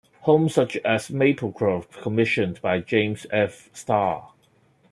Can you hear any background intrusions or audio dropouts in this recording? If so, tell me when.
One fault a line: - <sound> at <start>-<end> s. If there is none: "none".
none